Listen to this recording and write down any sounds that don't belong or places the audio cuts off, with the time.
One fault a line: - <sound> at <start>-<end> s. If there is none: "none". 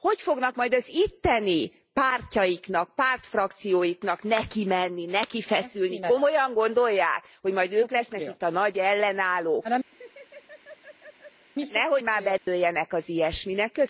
- laugh at 9.9-11.5 s
- dropout at 12.4-12.5 s